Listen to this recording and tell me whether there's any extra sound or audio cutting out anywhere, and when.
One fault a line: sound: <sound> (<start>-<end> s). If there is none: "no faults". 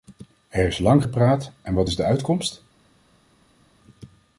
no faults